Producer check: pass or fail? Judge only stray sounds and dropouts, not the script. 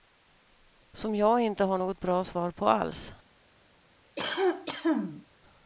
fail